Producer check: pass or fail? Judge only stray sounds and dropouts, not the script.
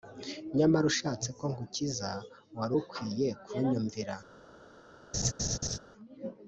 fail